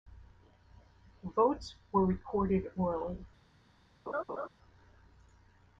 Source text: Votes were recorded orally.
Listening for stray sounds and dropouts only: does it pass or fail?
fail